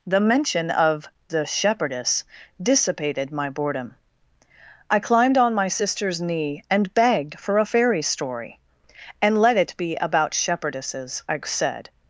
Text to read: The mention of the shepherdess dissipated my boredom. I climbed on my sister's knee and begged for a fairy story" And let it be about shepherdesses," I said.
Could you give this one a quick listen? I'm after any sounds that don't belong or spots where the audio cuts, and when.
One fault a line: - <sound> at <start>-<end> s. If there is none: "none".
none